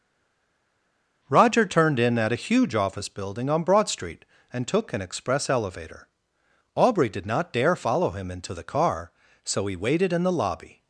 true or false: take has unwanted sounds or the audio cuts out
false